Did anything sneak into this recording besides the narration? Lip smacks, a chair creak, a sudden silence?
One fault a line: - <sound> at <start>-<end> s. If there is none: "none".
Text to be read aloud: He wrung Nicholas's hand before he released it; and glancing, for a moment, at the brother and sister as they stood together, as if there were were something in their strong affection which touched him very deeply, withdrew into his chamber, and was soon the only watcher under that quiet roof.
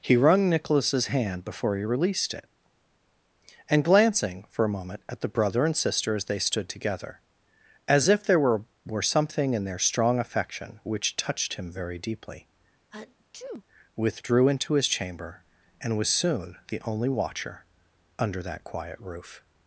- sneeze at 12.9-13.6 s